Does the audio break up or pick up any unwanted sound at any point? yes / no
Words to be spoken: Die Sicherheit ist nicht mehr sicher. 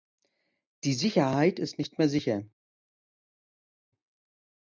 no